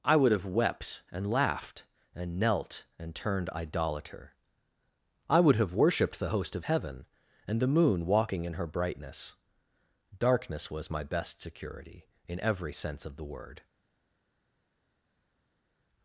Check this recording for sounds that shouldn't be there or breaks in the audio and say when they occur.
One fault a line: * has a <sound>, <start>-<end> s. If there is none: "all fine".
all fine